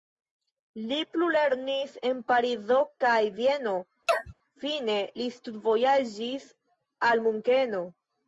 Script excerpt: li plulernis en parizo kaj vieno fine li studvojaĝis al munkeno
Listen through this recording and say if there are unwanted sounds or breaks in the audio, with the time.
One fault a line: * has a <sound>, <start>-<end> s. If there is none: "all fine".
* has a sneeze, 4.1-4.3 s